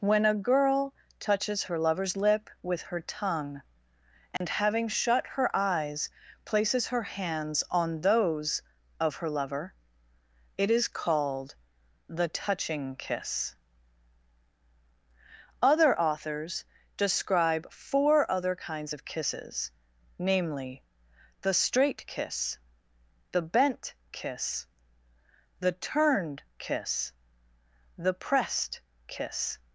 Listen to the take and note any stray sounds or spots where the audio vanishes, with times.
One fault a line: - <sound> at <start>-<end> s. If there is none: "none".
- dropout at 4.4-4.4 s